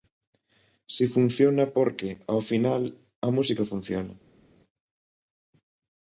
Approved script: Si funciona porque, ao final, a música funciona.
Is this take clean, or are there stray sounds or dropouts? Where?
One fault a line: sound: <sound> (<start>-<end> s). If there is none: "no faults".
no faults